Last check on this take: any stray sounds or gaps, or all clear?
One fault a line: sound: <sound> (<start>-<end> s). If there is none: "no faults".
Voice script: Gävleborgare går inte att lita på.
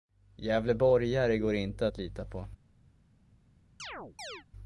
sound: chirp (3.8-4.4 s)